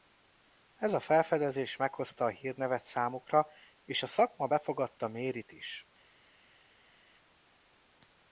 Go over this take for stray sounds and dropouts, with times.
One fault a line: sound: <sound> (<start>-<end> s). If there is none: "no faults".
no faults